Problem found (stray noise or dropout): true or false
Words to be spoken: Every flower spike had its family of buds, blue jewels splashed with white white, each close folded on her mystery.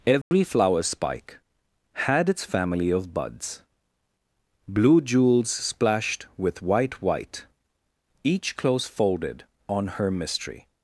true